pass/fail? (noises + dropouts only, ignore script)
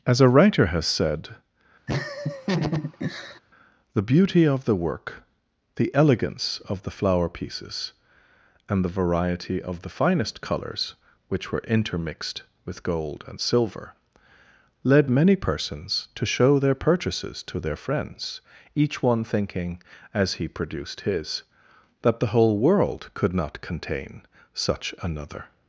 fail